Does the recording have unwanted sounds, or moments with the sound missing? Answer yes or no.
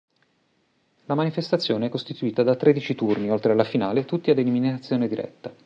no